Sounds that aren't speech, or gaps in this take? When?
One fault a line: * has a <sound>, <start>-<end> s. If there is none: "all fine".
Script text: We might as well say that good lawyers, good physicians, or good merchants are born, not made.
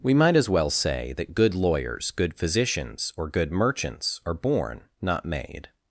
all fine